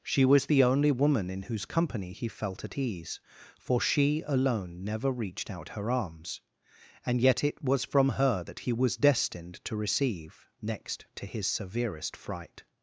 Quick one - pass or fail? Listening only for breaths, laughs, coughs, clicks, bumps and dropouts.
pass